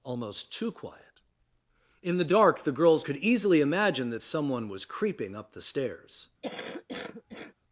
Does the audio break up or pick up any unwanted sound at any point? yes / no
yes